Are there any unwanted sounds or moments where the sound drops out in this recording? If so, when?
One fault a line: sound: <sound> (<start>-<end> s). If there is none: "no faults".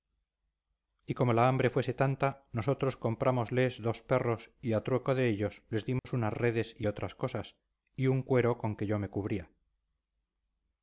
sound: dropout (6.0-6.0 s)